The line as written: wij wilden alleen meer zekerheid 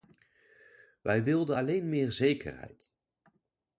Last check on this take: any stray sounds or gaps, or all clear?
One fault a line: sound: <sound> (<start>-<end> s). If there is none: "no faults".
no faults